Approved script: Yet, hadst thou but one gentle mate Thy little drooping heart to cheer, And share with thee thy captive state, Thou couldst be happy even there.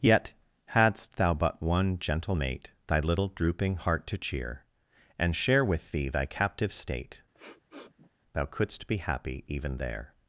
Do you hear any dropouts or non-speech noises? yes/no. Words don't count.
yes